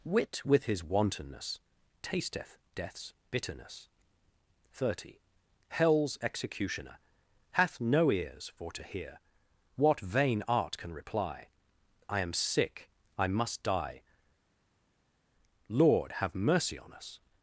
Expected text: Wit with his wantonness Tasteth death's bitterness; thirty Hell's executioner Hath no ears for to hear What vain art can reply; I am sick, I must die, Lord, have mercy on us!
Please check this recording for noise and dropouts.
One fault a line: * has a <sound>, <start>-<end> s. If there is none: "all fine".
all fine